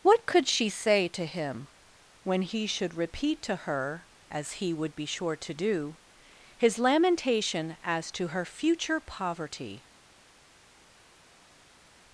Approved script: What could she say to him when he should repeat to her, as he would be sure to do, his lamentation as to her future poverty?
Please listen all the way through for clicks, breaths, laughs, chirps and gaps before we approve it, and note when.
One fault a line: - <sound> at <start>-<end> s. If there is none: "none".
none